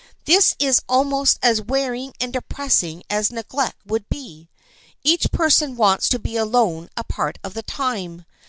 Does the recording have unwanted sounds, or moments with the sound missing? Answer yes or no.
no